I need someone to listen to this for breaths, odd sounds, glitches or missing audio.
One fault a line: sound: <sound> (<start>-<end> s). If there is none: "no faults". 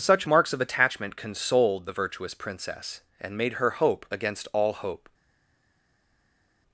no faults